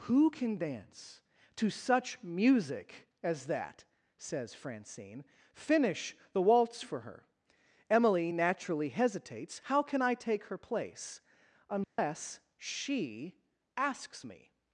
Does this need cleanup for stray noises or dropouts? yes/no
yes